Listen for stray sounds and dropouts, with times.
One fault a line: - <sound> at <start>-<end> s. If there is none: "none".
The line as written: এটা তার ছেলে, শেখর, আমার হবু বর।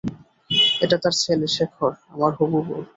none